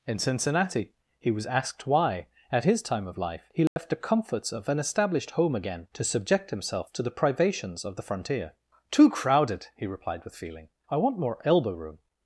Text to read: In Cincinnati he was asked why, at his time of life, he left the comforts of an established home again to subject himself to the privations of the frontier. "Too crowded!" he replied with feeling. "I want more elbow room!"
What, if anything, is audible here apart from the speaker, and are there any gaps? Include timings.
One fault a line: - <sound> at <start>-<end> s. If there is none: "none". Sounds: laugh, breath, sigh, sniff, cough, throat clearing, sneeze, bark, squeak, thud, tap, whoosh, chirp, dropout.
- dropout at 3.7-3.8 s